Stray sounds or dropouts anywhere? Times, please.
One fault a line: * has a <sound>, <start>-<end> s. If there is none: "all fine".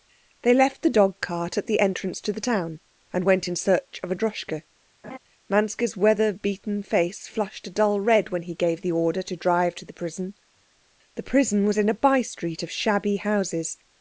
* has a laugh, 5.0-5.2 s